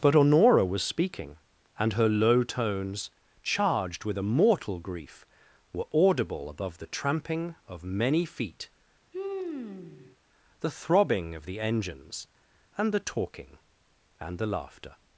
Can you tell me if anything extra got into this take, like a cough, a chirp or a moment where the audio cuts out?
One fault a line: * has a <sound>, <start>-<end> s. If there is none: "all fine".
* has a sigh, 9.1-10.2 s